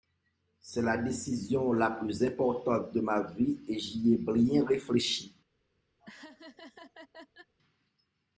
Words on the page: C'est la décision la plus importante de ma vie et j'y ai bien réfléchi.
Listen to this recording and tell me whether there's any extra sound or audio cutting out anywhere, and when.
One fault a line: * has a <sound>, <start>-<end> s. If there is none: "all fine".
* has a laugh, 6.0-7.5 s